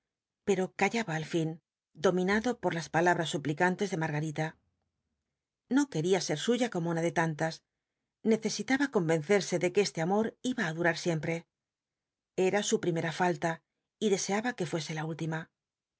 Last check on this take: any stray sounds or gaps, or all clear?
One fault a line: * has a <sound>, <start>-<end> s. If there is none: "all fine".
all fine